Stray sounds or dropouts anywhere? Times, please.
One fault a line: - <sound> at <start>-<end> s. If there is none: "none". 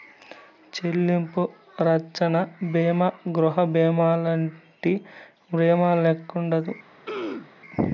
- throat clearing at 7.1-7.5 s